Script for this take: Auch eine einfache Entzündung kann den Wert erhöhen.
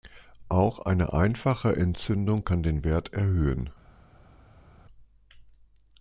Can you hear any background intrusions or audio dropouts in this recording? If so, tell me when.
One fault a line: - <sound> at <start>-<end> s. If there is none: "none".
none